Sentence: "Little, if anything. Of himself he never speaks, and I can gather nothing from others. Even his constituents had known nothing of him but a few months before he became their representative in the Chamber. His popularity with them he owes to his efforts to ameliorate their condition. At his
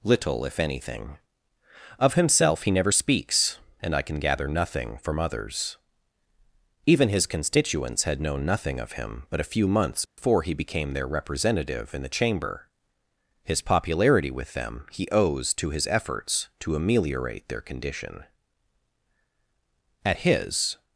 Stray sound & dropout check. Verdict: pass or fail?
fail